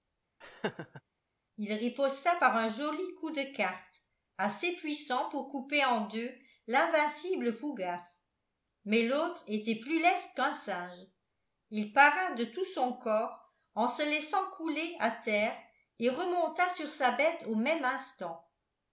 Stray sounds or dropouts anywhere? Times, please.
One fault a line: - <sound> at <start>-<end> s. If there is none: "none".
- laugh at 0.4-1.0 s